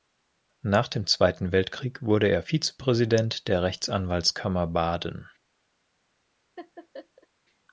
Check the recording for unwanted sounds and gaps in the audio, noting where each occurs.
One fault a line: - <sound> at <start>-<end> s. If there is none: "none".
- laugh at 6.6-7.3 s